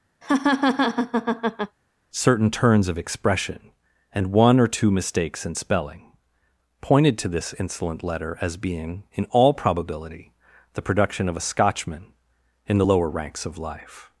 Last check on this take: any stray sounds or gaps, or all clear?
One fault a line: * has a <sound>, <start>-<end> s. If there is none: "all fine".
* has a laugh, 0.2-1.8 s